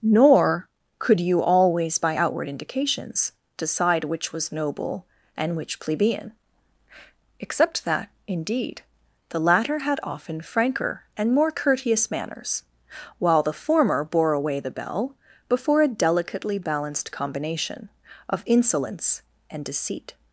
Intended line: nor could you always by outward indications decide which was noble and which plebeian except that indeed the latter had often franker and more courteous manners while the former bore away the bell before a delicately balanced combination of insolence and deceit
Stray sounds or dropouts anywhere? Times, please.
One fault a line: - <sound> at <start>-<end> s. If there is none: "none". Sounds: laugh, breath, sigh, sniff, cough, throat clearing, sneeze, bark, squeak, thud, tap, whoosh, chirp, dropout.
none